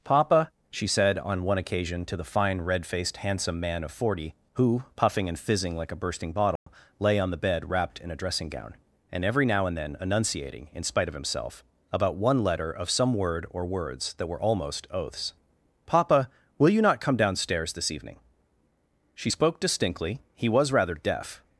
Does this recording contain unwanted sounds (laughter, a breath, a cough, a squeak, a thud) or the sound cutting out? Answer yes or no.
yes